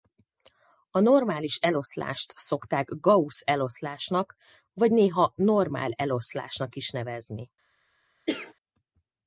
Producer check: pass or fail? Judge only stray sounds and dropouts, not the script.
fail